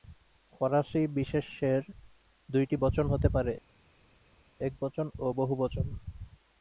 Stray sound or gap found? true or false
false